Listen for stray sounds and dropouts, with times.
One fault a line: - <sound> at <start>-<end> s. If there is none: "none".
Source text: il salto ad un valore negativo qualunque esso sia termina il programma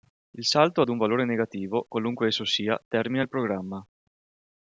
none